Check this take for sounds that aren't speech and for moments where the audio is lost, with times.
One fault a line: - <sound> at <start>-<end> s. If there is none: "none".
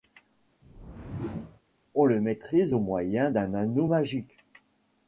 - whoosh at 0.6-1.6 s